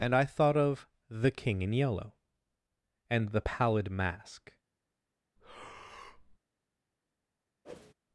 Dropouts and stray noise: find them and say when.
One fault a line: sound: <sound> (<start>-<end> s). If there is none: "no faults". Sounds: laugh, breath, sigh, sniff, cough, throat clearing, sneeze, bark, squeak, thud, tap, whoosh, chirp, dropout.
sound: breath (5.4-6.4 s)
sound: whoosh (7.6-7.9 s)